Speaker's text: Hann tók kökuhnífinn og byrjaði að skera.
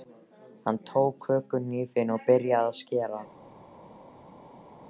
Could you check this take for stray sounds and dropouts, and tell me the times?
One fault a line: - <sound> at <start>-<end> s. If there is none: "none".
none